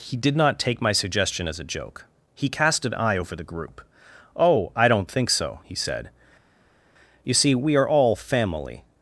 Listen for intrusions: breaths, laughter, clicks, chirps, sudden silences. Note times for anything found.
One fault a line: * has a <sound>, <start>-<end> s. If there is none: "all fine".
all fine